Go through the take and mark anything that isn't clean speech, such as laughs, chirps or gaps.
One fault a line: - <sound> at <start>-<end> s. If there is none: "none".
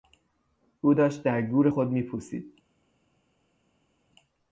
none